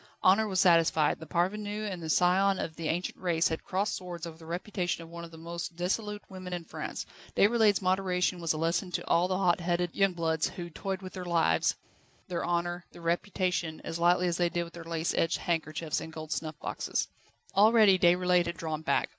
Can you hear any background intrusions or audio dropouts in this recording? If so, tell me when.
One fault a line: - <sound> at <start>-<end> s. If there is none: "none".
none